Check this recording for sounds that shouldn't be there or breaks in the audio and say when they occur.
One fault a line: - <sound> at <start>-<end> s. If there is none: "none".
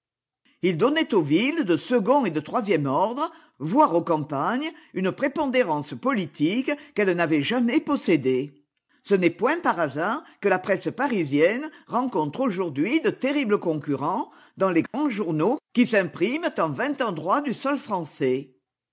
- dropout at 14.9-14.9 s